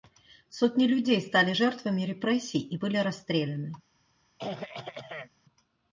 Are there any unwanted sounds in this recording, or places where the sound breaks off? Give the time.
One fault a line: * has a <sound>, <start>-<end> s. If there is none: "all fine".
* has a throat clearing, 4.4-5.3 s